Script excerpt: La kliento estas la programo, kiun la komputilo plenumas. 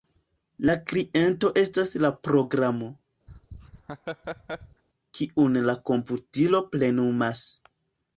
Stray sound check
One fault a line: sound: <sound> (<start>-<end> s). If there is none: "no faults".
sound: laugh (3.3-4.8 s)